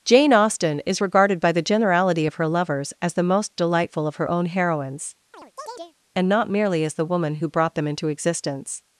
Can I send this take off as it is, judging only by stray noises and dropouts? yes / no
no